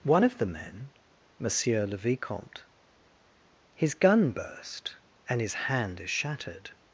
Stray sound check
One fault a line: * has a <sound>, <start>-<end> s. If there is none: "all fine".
all fine